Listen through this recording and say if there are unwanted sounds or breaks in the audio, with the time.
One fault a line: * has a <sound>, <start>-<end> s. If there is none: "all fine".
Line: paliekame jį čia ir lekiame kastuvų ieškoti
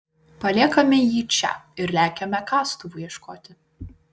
all fine